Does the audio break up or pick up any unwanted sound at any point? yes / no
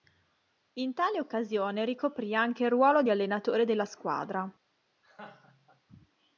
yes